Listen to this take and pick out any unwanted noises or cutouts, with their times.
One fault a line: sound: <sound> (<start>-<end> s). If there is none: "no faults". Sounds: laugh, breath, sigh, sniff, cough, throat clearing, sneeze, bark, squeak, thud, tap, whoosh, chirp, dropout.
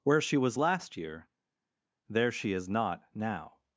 no faults